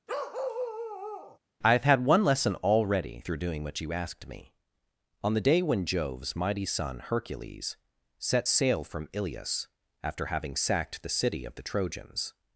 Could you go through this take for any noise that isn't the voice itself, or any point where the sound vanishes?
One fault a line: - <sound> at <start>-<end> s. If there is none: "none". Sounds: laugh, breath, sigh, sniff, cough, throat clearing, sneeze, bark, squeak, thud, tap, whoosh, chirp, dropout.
- bark at 0.1-1.4 s